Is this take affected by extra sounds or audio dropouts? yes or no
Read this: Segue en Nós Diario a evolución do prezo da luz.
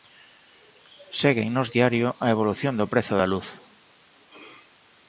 no